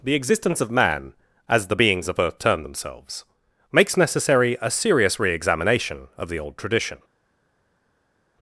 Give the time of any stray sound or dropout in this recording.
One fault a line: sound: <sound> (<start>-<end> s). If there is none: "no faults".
no faults